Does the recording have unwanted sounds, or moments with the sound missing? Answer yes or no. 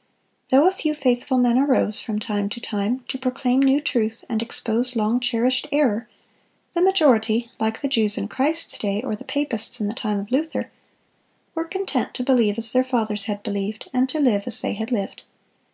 no